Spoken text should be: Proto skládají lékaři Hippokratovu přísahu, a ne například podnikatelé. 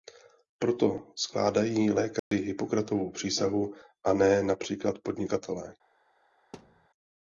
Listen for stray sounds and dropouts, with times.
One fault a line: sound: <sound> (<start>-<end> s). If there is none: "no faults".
sound: dropout (2.2-2.3 s)
sound: thud (6.5-6.9 s)